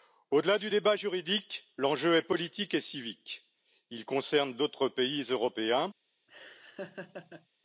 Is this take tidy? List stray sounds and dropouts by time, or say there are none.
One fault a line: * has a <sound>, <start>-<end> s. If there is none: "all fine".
* has a laugh, 6.3-7.5 s